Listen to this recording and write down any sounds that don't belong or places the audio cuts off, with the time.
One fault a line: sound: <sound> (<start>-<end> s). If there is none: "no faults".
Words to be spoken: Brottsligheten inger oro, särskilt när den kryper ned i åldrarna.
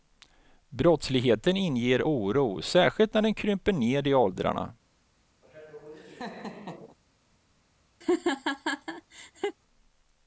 sound: laugh (5.4-7.0 s)
sound: laugh (8.0-9.6 s)